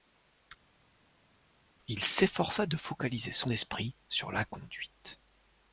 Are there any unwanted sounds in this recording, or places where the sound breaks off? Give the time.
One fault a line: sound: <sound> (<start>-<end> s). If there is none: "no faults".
no faults